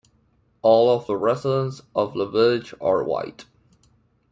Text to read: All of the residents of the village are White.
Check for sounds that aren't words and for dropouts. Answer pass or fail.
pass